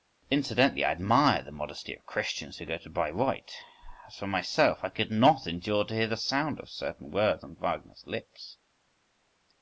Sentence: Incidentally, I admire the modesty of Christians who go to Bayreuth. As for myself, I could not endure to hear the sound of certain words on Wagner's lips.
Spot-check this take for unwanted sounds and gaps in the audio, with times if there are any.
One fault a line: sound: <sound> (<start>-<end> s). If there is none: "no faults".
no faults